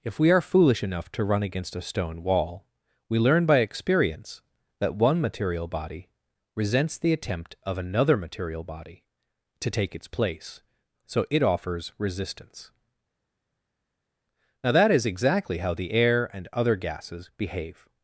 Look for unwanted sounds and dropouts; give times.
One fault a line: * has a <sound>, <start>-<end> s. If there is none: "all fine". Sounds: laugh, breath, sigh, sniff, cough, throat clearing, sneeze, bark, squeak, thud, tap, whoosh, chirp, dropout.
all fine